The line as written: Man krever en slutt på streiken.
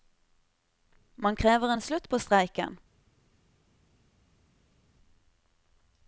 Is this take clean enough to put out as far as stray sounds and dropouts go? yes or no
yes